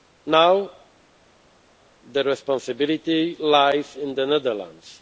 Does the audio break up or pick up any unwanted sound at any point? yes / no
no